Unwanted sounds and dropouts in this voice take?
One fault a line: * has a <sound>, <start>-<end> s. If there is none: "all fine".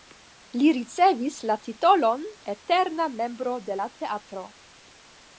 all fine